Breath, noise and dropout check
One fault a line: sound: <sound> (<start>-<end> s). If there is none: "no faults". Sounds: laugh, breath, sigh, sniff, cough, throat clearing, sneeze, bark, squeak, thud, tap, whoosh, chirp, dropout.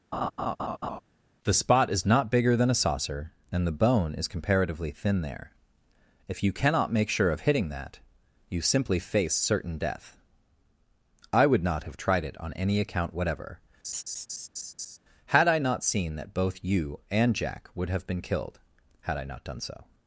sound: laugh (0.1-1.0 s)
sound: laugh (13.8-15.0 s)